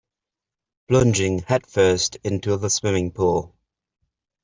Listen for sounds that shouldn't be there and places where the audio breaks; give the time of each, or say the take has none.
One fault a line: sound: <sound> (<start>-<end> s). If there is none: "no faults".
no faults